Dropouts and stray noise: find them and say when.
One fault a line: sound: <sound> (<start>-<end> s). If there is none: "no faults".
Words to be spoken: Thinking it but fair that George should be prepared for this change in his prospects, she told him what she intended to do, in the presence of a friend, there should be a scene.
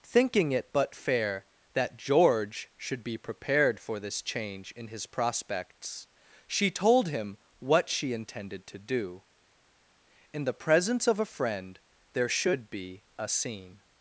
no faults